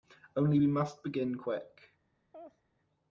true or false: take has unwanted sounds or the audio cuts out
true